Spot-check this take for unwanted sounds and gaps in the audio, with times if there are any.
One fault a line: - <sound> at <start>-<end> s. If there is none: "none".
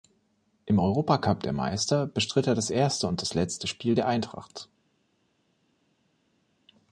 none